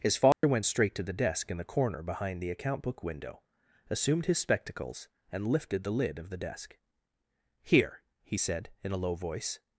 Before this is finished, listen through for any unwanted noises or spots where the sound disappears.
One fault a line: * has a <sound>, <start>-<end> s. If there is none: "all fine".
* has a dropout, 0.3-0.4 s